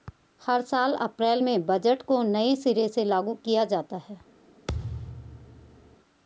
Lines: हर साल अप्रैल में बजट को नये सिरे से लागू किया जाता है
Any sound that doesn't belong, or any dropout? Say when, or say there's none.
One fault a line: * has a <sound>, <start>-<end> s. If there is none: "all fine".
* has a thud, 4.7-6.0 s